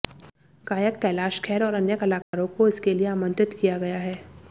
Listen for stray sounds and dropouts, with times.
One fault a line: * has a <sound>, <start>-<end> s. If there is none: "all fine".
* has a dropout, 2.2-2.3 s